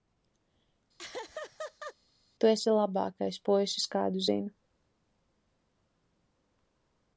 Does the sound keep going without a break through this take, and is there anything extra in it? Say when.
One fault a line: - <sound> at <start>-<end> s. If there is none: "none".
- laugh at 1.0-2.0 s